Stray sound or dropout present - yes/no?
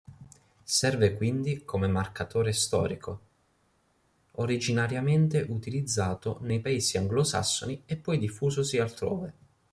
no